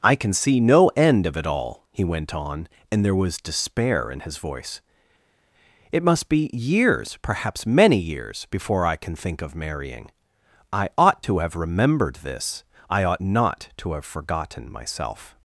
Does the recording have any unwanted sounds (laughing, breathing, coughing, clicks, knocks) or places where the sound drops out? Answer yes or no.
no